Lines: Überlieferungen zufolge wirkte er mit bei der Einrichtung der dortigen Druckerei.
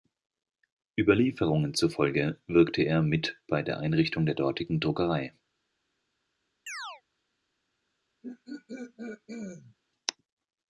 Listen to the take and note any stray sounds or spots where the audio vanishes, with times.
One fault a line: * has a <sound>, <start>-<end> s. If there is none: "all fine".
* has a chirp, 6.7-7.0 s
* has a throat clearing, 8.2-9.8 s